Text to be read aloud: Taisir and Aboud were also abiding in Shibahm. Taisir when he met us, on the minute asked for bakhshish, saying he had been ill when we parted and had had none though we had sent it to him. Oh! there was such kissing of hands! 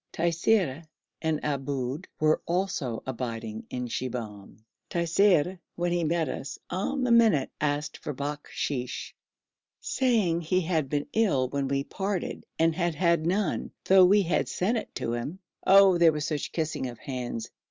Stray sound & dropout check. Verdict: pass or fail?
pass